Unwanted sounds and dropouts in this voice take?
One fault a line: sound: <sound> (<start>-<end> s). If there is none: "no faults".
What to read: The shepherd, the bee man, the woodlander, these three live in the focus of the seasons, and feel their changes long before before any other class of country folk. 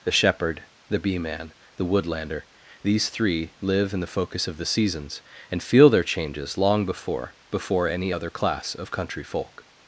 no faults